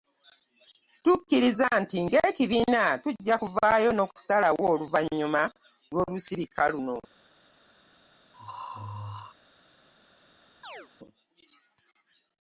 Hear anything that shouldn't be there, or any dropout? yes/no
yes